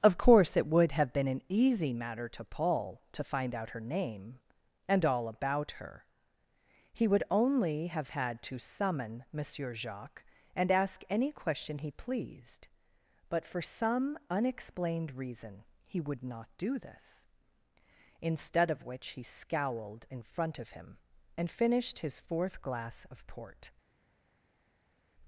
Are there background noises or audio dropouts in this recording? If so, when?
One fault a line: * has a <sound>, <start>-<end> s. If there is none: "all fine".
all fine